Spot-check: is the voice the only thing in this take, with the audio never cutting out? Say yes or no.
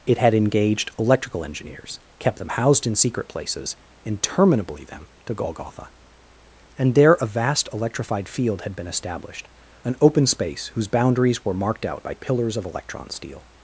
yes